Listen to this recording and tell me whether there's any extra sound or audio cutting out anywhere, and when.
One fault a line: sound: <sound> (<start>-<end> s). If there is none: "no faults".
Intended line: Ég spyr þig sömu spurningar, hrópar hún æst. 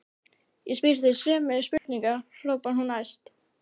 sound: dropout (1.8-1.9 s)